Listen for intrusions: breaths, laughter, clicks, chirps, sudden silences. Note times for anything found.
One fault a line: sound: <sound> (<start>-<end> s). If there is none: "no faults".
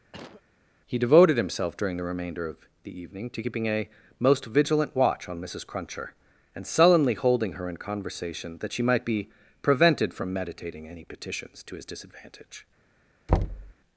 sound: cough (0.1-0.4 s)
sound: thud (13.3-13.7 s)